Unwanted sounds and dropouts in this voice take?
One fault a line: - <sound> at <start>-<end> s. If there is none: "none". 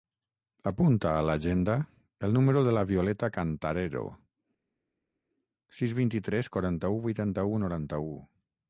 none